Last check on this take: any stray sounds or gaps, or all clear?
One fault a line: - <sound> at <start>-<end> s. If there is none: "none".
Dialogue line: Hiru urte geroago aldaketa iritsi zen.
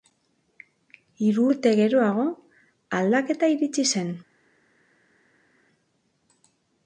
none